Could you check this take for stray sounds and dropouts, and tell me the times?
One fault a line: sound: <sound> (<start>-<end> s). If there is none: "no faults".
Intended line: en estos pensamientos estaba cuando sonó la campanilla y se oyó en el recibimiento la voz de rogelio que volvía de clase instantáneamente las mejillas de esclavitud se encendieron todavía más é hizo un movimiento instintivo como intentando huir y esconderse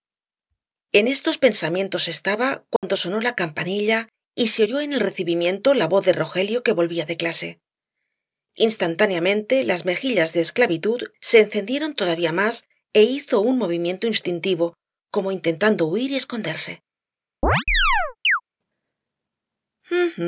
sound: dropout (2.8-2.8 s)
sound: chirp (17.4-18.4 s)